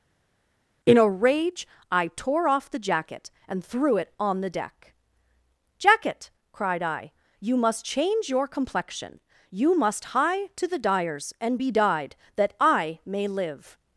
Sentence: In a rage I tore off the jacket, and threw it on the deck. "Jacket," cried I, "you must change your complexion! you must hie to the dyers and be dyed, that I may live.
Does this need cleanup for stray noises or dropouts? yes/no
no